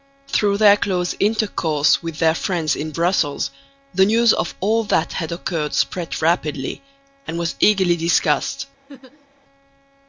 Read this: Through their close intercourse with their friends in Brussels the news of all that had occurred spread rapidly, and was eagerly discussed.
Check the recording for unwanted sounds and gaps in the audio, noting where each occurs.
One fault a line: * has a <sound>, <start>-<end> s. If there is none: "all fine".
* has a laugh, 8.9-9.3 s